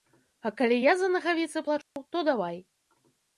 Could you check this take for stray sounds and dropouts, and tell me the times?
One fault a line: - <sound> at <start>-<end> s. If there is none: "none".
- dropout at 1.8-2.0 s